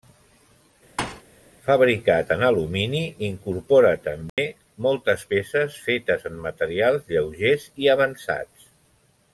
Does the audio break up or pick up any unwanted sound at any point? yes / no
yes